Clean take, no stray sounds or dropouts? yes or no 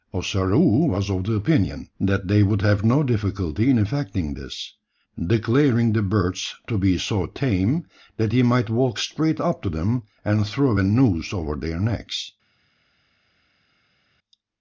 yes